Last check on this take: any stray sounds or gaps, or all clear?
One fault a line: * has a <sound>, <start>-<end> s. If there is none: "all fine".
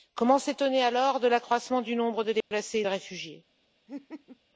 * has a dropout, 2.4-2.5 s
* has a laugh, 3.9-4.4 s